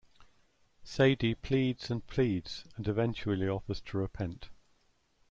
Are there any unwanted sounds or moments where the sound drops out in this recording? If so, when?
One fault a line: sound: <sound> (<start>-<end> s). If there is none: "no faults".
no faults